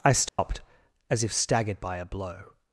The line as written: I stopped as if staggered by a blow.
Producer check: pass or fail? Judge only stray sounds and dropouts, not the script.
fail